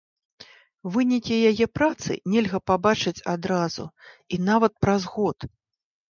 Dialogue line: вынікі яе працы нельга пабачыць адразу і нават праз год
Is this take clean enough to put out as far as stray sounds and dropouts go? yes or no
yes